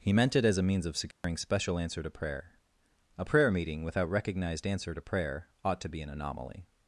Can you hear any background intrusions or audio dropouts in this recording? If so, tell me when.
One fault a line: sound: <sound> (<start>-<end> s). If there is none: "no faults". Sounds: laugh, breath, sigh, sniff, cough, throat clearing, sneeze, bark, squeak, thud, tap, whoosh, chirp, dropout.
sound: dropout (1.1-1.2 s)